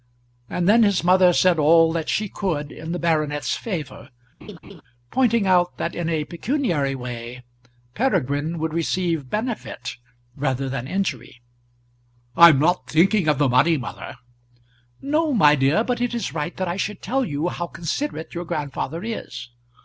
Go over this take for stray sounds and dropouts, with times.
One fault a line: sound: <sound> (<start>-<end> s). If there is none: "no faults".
sound: laugh (4.4-4.8 s)